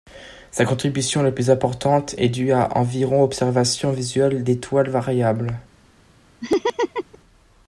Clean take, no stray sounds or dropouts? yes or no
no